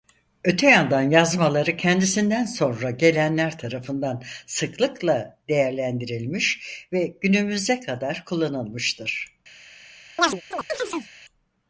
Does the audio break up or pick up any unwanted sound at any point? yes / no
yes